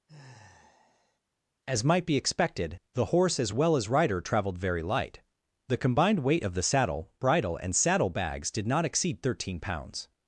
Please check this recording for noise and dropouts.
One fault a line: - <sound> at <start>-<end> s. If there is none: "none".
- sigh at 0.1-1.2 s